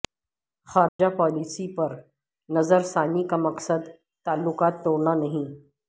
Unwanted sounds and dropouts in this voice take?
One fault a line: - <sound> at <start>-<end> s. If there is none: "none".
- dropout at 0.9-1.0 s